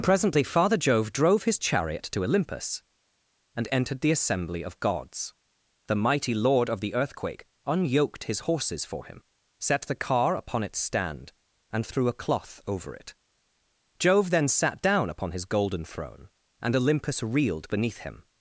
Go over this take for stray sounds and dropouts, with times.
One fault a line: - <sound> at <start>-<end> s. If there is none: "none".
none